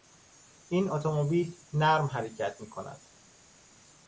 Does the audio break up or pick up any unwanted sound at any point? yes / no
no